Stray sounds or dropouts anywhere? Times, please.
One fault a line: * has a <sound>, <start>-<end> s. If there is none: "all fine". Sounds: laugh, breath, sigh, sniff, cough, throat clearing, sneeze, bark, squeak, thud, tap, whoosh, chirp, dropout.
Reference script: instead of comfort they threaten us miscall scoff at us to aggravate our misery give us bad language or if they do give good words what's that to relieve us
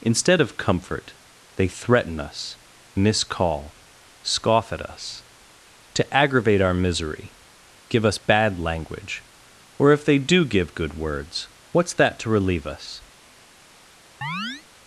* has a chirp, 14.2-14.6 s